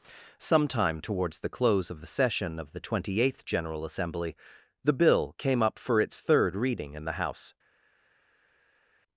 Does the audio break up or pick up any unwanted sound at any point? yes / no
no